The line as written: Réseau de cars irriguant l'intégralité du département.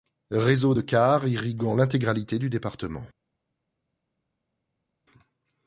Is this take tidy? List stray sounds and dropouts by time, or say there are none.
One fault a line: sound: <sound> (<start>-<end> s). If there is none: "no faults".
no faults